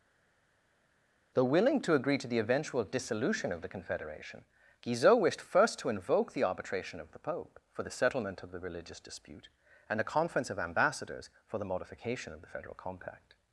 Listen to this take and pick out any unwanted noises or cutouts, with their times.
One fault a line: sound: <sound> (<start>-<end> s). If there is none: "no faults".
no faults